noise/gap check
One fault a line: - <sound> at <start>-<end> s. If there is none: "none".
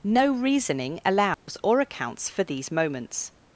- dropout at 1.3-1.5 s